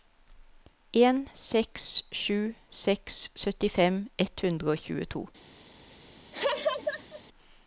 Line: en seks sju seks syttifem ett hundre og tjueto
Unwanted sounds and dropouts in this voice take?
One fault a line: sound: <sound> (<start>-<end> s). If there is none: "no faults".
sound: laugh (6.3-7.2 s)